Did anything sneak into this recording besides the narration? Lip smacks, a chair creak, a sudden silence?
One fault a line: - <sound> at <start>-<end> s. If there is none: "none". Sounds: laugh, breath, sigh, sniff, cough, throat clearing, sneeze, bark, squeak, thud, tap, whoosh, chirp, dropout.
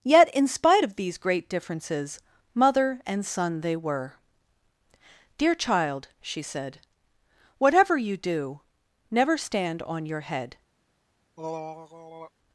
- throat clearing at 11.4-12.3 s